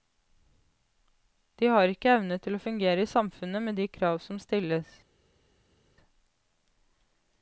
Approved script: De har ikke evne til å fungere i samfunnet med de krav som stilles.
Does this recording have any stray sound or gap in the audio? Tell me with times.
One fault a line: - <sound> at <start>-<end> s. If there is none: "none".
none